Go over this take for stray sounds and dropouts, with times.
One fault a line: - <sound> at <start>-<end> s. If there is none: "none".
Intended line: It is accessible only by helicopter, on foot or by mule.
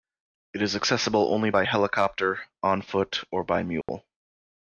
- dropout at 3.8-3.9 s